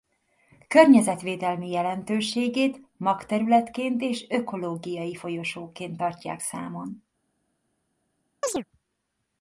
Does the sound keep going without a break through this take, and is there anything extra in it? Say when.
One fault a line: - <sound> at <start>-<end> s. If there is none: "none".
- chirp at 8.4-8.6 s